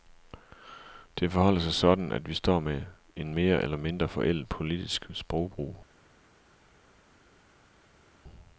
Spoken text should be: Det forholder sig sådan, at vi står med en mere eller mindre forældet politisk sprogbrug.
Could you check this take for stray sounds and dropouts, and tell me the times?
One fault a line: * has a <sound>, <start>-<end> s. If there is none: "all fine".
all fine